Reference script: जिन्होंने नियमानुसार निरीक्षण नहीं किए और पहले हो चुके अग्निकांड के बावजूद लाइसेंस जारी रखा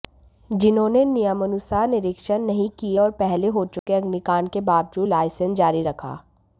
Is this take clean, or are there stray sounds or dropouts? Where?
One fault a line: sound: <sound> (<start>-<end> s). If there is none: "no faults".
sound: dropout (3.8-3.9 s)